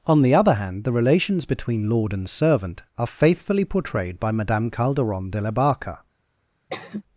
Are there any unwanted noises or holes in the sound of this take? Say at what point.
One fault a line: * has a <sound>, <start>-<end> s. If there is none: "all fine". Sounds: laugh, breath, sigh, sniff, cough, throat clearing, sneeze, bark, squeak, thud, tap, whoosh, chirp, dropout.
* has a sigh, 6.7-7.0 s